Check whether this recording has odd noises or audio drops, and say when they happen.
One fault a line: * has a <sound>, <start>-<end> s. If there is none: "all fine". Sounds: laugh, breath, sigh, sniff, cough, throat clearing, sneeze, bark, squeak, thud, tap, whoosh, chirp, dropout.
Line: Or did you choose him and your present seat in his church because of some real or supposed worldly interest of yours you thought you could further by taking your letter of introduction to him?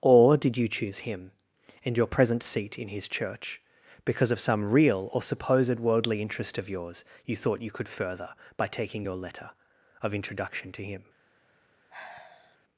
* has a sigh, 11.9-12.6 s